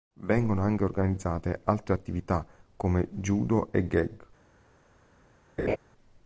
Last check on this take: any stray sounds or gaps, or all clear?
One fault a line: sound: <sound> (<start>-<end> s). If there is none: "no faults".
sound: laugh (5.6-5.8 s)